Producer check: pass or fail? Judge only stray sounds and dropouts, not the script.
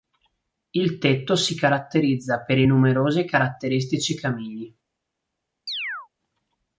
fail